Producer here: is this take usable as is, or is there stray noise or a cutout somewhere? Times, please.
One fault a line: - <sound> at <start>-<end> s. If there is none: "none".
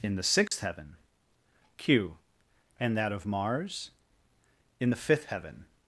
- dropout at 0.5-0.5 s